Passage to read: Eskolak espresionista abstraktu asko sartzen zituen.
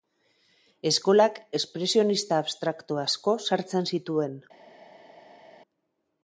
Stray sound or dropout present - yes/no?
no